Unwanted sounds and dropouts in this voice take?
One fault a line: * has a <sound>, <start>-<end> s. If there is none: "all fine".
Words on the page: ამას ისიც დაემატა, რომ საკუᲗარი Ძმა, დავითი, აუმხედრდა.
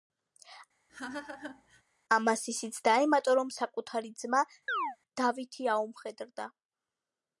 * has a laugh, 0.9-1.8 s
* has a chirp, 4.7-5.0 s